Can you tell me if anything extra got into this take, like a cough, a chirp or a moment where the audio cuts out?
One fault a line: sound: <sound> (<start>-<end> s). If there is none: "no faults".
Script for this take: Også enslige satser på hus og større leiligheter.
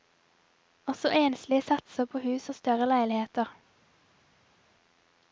no faults